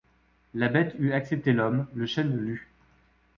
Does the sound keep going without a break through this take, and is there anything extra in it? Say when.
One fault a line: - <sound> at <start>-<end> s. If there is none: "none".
none